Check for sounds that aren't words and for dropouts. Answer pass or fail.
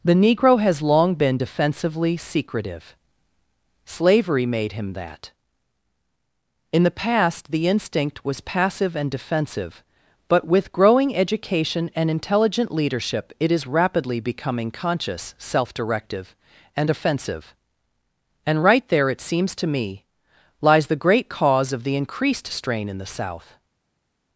pass